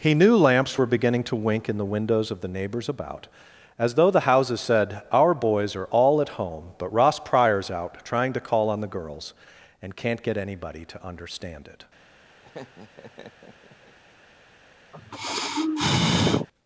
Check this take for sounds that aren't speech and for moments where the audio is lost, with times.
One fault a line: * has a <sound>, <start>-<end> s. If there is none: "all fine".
* has a laugh, 12.4-14.0 s
* has a sigh, 14.9-16.5 s